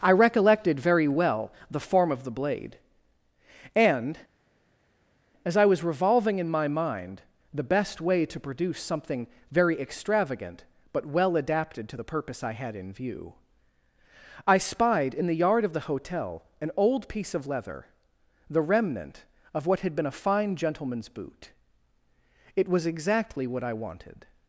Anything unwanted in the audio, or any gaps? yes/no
no